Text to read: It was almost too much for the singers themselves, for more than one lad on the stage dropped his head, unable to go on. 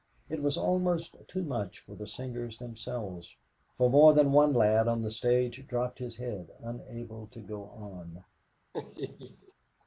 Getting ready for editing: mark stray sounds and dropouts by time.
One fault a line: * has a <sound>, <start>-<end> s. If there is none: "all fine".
* has a laugh, 8.7-9.5 s